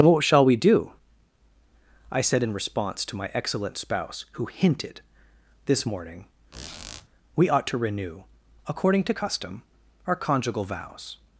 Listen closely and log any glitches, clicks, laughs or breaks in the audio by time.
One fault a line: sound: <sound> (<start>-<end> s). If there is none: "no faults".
sound: squeak (6.5-7.1 s)